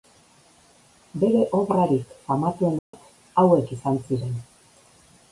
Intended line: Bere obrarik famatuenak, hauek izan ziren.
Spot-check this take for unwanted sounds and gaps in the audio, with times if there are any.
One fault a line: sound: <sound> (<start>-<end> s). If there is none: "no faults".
sound: dropout (2.8-2.9 s)